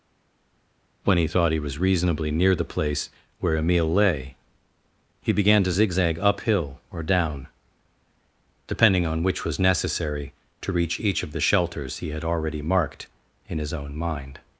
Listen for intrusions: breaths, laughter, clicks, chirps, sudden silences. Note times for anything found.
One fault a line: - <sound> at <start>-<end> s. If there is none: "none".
none